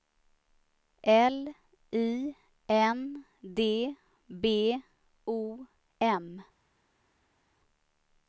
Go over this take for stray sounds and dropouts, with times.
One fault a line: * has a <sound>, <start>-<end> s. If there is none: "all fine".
all fine